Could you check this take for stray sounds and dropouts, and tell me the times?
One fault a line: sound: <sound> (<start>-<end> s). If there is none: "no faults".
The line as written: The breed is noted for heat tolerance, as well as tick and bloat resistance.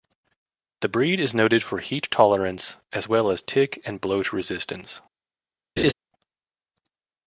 sound: laugh (5.8-5.9 s)